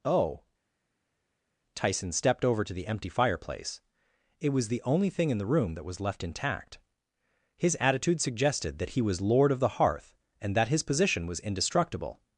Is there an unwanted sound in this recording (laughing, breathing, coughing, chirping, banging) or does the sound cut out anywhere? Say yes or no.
no